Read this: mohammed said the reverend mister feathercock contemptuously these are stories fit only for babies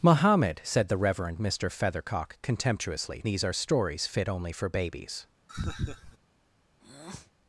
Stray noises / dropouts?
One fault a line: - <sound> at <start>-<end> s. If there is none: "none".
- laugh at 5.5-6.2 s
- breath at 6.8-7.3 s